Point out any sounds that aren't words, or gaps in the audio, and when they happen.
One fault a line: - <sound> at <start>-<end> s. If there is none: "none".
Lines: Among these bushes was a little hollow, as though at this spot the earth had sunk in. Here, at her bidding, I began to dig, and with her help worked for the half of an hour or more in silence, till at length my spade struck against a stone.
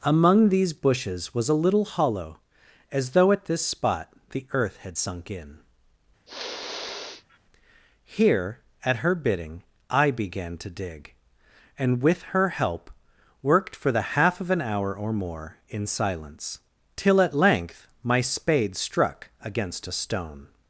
- sniff at 6.3-7.4 s